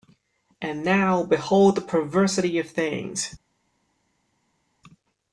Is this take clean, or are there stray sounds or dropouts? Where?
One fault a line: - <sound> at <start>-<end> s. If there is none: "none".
none